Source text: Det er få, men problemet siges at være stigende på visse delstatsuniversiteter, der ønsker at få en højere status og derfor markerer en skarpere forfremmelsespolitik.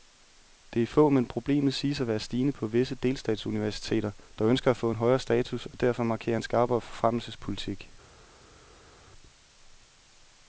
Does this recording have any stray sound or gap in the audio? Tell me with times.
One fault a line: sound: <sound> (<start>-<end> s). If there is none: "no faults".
no faults